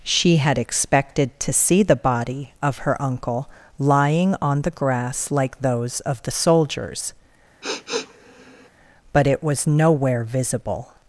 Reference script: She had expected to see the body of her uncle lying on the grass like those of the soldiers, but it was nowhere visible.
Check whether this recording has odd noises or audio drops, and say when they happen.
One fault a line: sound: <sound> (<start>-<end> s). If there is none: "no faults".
sound: sniff (7.6-8.7 s)